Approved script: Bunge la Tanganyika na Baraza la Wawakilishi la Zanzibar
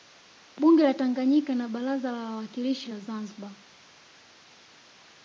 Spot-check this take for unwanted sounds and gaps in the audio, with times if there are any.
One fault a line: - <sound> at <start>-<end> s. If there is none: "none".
none